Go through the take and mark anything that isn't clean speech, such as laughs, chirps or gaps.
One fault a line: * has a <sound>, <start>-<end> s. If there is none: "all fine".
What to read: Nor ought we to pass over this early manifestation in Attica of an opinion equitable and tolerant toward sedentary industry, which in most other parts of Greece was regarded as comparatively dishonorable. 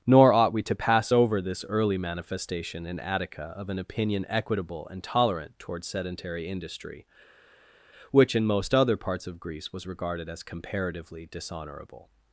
all fine